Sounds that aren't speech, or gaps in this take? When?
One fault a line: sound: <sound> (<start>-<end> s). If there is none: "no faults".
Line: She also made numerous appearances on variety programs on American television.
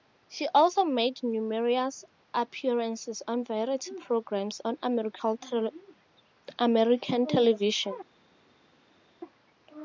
no faults